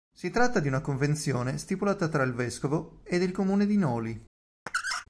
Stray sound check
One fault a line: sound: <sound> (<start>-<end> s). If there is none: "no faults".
sound: squeak (4.7-5.1 s)